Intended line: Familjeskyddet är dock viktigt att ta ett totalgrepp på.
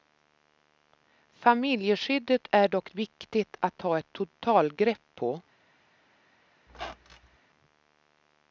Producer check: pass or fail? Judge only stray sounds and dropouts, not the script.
fail